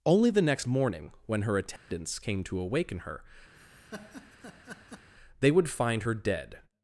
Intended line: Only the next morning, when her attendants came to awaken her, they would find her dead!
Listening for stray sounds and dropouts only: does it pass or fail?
fail